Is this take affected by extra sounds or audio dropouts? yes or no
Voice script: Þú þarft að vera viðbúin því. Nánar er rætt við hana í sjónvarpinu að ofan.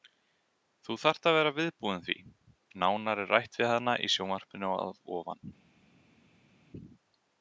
no